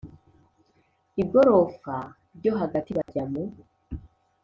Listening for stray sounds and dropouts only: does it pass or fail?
fail